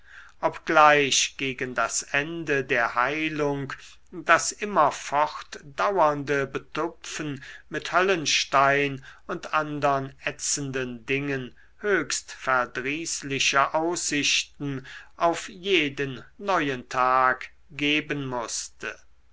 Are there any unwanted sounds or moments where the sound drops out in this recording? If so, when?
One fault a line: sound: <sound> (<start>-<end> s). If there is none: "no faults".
no faults